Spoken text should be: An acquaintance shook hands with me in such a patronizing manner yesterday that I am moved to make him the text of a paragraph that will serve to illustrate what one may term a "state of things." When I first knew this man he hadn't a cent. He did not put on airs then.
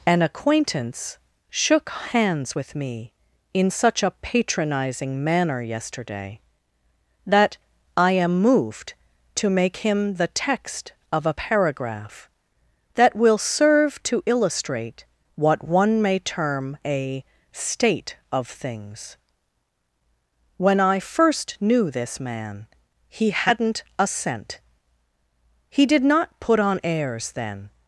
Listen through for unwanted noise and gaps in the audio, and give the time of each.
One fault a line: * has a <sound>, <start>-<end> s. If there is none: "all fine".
all fine